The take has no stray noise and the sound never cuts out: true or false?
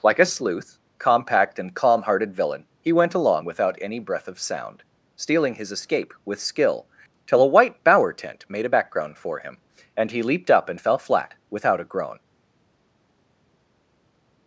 true